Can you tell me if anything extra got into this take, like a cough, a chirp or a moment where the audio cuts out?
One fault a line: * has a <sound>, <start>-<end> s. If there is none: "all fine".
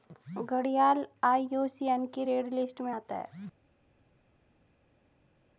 all fine